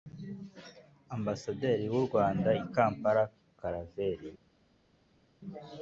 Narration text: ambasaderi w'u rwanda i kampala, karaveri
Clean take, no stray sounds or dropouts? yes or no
yes